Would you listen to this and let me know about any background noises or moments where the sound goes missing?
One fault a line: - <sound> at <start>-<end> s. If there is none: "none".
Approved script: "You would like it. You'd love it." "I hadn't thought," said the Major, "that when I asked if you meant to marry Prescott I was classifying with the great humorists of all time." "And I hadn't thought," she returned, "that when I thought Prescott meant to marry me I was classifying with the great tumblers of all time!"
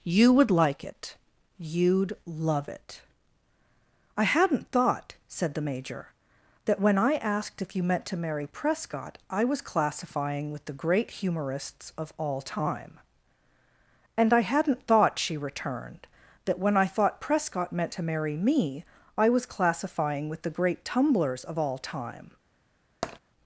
- tap at 23.0-23.2 s